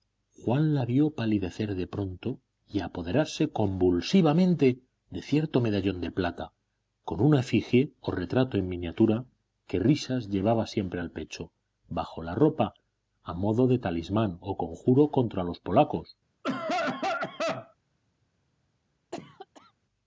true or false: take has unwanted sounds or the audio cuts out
true